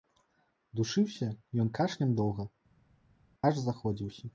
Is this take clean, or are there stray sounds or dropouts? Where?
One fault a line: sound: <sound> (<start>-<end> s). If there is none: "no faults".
no faults